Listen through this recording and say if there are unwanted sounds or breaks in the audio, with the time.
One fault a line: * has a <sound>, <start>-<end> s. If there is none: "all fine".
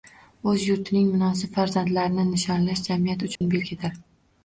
* has a dropout, 3.4-3.4 s